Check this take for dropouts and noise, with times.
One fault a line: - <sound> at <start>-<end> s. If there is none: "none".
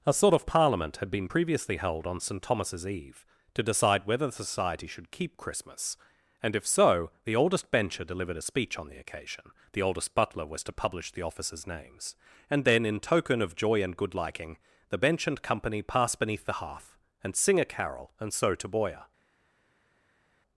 none